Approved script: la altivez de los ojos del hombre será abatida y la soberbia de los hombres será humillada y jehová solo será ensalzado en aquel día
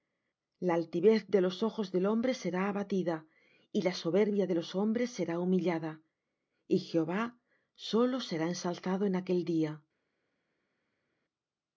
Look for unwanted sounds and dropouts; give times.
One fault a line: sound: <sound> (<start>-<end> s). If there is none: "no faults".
no faults